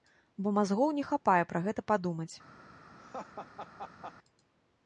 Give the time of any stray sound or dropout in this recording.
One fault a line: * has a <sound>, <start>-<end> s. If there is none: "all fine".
* has a laugh, 3.0-4.2 s